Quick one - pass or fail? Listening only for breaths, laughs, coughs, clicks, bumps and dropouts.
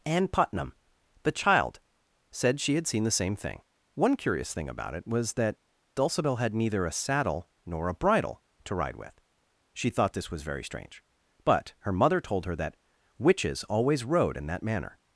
pass